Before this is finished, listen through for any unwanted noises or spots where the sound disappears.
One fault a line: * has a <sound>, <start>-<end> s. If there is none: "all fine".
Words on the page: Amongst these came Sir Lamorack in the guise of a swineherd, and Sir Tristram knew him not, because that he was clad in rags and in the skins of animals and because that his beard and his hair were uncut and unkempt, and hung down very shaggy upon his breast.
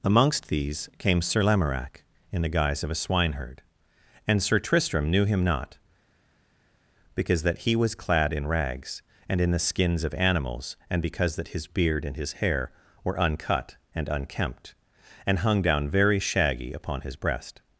all fine